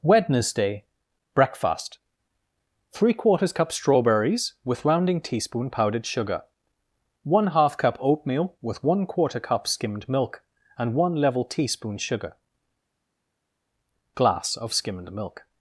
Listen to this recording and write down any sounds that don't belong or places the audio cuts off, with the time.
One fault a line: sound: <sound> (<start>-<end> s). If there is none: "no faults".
no faults